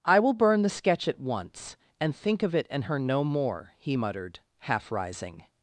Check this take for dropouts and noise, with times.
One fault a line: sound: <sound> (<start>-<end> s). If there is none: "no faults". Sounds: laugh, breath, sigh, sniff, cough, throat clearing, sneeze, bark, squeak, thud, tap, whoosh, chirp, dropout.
no faults